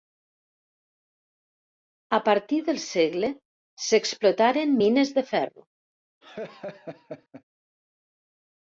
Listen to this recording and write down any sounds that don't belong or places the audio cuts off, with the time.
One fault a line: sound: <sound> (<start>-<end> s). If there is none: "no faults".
sound: laugh (6.2-7.4 s)